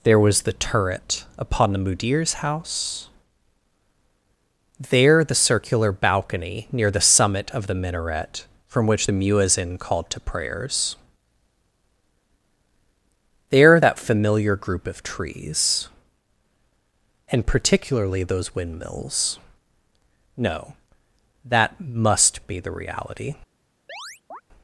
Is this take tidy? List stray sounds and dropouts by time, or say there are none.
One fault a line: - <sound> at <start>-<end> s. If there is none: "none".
- chirp at 23.9-24.4 s